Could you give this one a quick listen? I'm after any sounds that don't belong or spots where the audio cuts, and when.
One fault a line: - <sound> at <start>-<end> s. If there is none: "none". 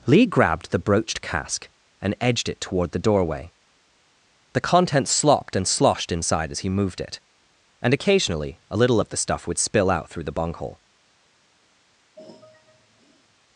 - sigh at 12.2-13.4 s